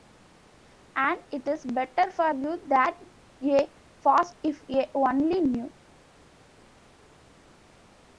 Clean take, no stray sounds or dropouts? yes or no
yes